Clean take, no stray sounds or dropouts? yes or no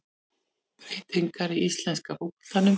yes